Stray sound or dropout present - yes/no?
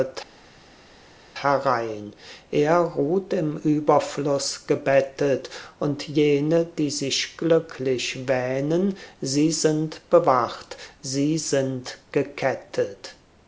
no